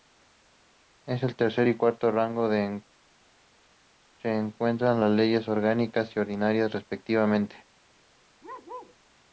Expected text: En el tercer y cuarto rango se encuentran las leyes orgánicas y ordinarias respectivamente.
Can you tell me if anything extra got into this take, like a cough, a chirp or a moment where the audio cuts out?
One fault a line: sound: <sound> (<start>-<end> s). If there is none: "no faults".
sound: bark (8.4-9.0 s)